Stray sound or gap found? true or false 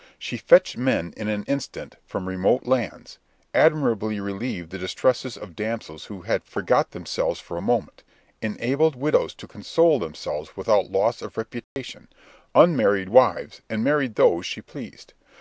true